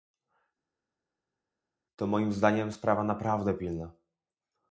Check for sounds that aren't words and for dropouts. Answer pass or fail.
pass